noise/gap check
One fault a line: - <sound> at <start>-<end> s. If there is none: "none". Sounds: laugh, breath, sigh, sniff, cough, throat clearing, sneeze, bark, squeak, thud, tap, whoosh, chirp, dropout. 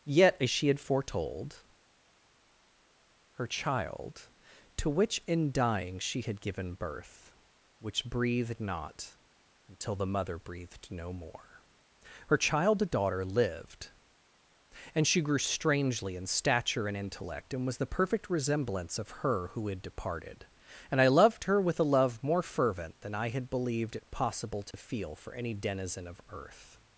- dropout at 24.7-24.7 s